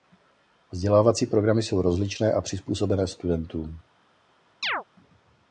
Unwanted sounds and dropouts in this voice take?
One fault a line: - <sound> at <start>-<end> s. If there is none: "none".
- chirp at 4.6-4.8 s